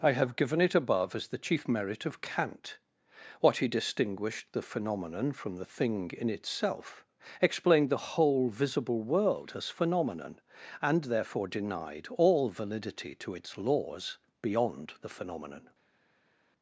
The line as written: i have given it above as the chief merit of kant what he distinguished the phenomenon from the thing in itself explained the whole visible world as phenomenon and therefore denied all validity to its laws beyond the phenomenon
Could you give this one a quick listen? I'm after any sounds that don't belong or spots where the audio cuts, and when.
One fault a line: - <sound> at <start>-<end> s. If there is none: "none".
none